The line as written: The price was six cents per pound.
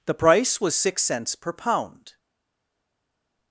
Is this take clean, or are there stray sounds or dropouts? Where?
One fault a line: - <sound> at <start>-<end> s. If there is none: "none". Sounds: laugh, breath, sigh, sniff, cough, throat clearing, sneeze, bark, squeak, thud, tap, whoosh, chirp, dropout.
none